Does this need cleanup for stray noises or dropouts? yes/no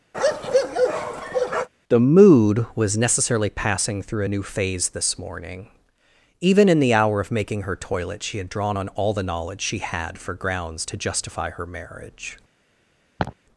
yes